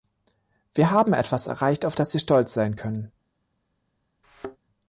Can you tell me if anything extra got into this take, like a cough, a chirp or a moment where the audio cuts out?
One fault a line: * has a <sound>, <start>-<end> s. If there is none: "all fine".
* has a thud, 4.2-4.6 s